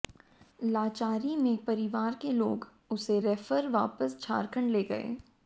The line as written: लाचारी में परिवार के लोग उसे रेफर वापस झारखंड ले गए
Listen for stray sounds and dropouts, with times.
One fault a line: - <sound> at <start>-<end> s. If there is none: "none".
none